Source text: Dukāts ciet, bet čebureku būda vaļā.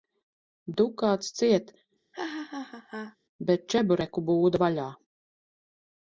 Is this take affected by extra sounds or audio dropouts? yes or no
yes